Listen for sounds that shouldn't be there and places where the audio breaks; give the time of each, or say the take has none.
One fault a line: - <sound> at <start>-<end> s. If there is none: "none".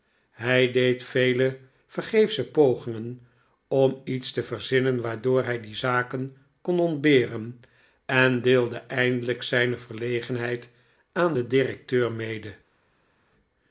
none